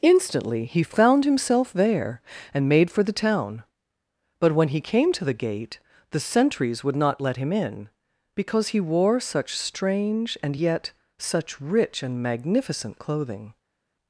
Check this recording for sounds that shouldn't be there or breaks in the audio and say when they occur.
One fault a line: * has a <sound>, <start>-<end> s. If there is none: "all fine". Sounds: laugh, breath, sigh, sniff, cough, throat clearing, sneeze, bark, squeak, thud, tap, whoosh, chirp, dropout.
all fine